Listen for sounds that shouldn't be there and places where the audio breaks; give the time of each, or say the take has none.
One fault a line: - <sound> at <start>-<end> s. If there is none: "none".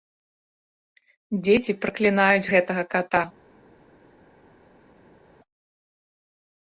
none